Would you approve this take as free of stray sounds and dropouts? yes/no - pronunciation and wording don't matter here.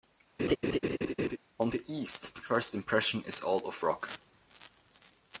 no